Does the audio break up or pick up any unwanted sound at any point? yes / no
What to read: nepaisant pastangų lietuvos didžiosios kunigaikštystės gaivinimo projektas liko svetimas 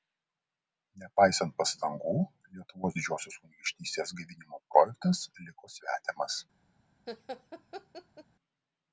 yes